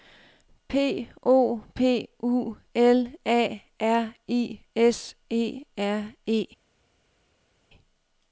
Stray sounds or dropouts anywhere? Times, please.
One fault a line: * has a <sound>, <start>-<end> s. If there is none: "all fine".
all fine